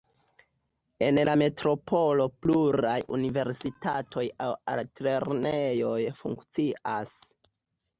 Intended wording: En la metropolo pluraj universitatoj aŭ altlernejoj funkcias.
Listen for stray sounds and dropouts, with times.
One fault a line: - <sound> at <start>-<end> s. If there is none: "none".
none